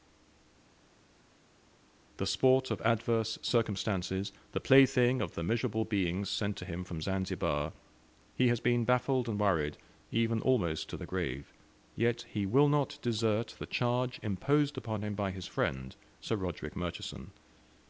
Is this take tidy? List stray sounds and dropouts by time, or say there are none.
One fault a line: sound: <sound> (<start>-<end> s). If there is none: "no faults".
no faults